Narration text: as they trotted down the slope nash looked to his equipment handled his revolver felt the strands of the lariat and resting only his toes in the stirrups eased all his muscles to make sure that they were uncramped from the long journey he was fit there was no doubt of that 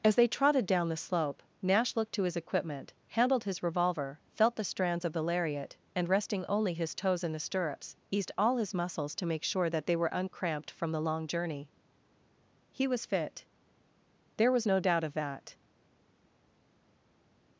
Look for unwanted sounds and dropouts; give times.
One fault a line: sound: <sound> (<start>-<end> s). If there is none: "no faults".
no faults